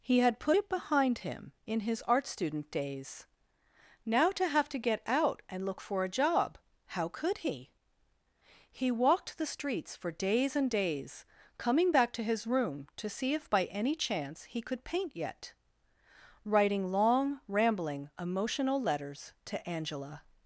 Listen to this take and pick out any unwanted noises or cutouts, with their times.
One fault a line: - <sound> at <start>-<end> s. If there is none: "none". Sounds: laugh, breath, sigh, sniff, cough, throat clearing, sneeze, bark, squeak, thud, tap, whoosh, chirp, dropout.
none